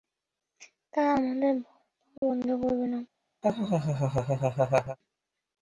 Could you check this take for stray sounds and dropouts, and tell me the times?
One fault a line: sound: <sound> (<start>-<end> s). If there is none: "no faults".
sound: dropout (2.2-2.2 s)
sound: laugh (3.4-5.0 s)